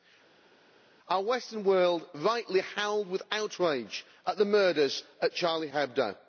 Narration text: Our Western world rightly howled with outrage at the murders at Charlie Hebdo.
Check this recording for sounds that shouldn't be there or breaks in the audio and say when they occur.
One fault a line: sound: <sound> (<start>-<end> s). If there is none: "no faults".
no faults